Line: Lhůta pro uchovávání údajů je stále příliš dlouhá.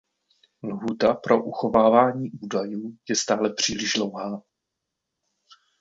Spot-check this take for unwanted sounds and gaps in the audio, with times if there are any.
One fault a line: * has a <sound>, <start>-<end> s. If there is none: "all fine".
all fine